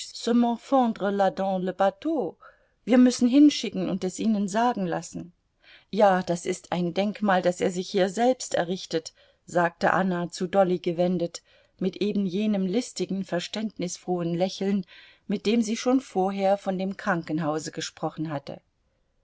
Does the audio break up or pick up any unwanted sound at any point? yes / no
no